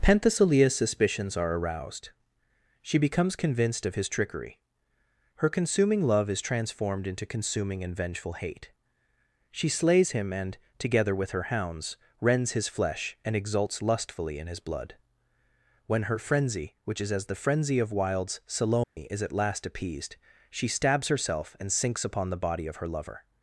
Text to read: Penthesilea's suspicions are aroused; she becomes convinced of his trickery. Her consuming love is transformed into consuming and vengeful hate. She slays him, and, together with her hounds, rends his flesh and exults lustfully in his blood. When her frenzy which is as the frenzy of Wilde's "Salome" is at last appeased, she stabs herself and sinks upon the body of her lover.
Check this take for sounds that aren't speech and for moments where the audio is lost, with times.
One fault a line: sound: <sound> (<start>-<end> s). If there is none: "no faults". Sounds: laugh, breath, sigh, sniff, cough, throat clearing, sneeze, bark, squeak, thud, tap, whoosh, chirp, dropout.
sound: dropout (18.8-19.0 s)